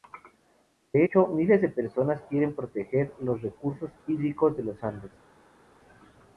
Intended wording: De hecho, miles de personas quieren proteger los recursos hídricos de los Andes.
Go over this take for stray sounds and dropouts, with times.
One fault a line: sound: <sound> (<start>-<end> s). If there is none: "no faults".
no faults